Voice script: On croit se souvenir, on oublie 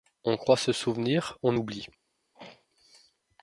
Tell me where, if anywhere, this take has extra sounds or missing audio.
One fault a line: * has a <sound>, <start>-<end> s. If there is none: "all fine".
* has a throat clearing, 2.3-2.7 s